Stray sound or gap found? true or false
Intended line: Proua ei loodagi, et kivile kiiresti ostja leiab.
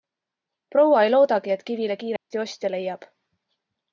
true